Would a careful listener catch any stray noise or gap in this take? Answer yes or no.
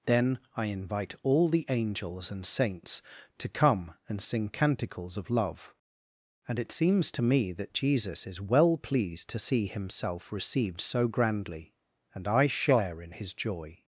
no